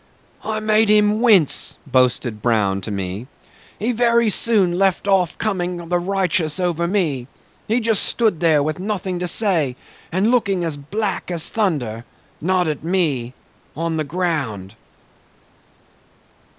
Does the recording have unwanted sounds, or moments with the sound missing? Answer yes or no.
no